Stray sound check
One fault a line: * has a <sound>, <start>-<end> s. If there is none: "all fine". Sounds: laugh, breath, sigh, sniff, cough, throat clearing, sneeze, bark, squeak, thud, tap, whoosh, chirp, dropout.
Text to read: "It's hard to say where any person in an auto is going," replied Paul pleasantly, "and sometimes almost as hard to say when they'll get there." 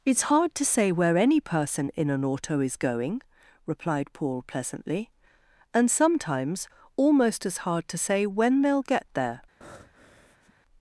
* has a breath, 9.6-10.5 s